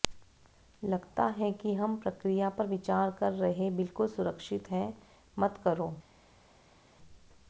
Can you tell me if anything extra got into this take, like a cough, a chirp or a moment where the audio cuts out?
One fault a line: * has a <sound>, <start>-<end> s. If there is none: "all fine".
all fine